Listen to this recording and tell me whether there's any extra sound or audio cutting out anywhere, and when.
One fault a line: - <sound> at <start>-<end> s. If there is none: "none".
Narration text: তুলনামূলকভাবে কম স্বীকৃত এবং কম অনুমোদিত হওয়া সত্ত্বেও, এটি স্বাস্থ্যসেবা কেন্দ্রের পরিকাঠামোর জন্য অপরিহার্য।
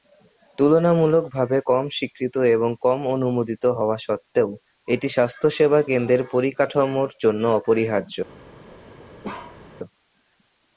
- bark at 9.2-9.6 s